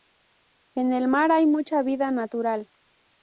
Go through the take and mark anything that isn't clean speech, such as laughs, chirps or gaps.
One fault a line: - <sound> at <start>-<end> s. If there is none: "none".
none